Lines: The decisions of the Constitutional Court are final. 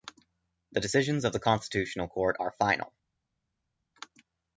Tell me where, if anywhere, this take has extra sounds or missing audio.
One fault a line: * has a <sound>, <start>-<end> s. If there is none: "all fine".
all fine